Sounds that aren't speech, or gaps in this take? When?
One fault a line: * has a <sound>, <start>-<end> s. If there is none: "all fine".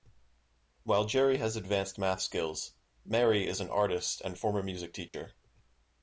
* has a dropout, 5.1-5.1 s